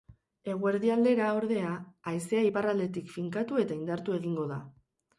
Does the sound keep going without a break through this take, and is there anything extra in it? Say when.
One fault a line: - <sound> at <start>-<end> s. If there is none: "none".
none